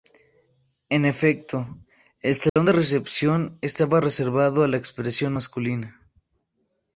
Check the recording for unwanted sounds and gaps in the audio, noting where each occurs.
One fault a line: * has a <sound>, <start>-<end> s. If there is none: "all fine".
* has a dropout, 2.5-2.6 s